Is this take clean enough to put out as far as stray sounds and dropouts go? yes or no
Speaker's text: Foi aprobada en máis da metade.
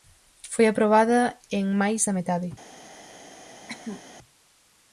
no